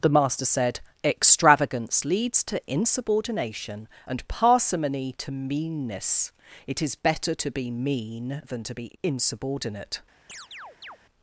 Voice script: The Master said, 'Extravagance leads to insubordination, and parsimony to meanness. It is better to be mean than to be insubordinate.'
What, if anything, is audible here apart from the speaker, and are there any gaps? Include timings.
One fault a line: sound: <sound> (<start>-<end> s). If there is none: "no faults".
sound: chirp (10.3-11.0 s)